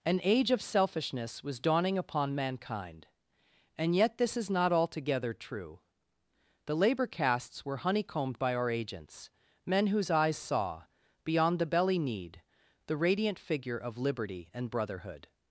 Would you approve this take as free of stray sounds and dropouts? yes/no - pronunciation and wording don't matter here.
yes